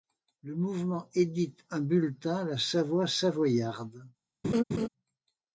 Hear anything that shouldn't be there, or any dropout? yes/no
yes